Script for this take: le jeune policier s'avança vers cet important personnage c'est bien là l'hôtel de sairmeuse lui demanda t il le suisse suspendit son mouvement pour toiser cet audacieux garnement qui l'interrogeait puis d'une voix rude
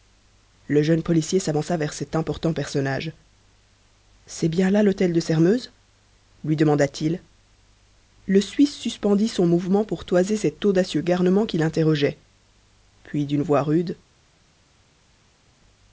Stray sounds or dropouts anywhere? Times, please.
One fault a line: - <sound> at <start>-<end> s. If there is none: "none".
none